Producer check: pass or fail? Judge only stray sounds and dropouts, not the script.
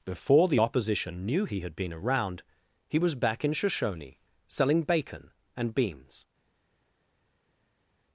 pass